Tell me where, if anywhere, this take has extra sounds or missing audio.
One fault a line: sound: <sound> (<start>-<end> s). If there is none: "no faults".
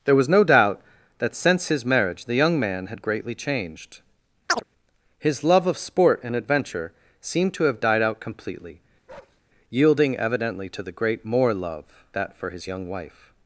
sound: chirp (4.5-4.6 s)
sound: bark (9.1-9.4 s)